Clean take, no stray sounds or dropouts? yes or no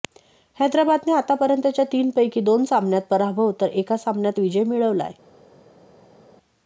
yes